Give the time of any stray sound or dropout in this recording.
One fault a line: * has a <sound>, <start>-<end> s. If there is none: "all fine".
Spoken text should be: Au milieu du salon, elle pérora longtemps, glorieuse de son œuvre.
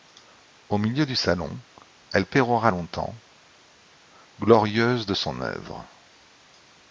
all fine